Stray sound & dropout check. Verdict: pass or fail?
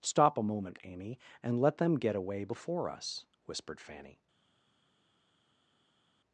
pass